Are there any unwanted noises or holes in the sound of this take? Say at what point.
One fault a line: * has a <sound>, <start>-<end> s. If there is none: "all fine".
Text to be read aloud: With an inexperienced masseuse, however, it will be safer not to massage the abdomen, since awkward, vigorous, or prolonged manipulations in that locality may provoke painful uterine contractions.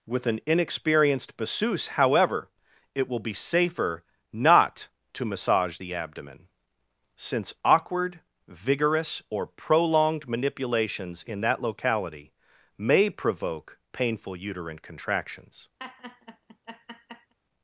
* has a laugh, 15.8-17.3 s